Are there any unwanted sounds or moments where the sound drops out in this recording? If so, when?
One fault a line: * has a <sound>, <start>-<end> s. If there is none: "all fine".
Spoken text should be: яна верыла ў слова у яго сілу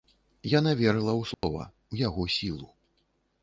* has a dropout, 1.3-1.4 s